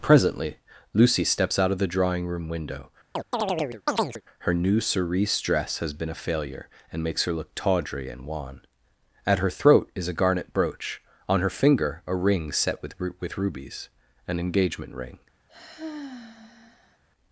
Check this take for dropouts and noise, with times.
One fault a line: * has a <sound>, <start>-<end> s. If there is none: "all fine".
* has a chirp, 3.2-4.2 s
* has a sigh, 15.5-17.0 s